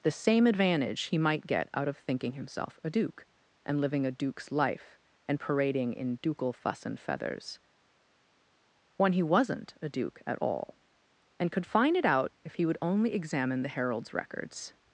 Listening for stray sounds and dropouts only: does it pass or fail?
pass